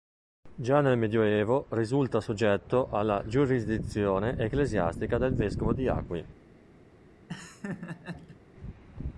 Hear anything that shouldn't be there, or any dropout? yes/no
yes